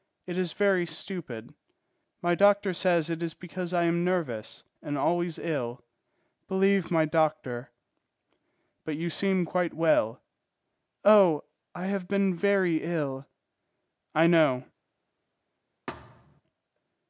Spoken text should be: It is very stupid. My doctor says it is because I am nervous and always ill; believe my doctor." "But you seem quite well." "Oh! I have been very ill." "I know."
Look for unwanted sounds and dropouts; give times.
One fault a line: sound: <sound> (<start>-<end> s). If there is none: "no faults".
sound: thud (15.9-16.4 s)